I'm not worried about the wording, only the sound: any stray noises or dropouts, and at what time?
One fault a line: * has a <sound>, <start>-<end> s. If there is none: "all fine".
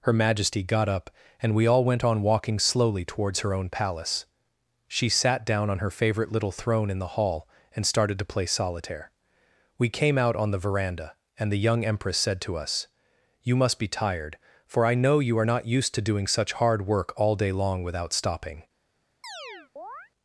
* has a chirp, 19.2-20.1 s